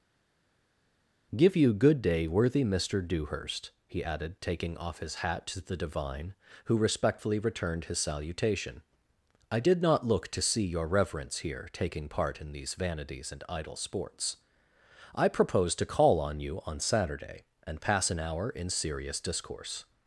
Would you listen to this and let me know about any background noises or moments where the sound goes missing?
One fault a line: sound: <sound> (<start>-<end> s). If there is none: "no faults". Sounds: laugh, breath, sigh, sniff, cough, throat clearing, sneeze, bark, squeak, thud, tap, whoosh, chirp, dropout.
no faults